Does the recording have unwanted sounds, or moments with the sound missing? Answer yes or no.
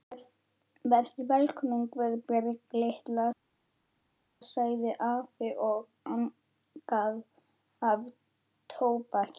no